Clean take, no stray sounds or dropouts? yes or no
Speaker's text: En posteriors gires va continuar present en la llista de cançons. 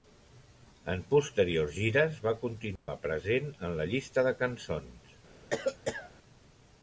no